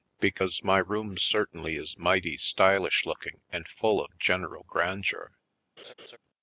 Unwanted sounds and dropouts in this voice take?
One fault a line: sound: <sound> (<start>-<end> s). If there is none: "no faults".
sound: laugh (5.8-6.2 s)